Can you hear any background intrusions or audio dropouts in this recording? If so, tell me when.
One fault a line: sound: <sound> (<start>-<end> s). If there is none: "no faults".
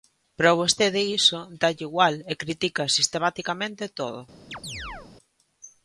sound: chirp (4.5-5.1 s)